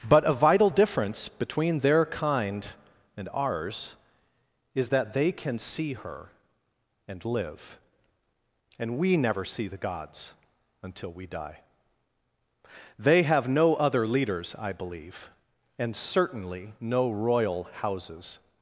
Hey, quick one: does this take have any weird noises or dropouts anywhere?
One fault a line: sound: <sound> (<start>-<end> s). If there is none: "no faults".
no faults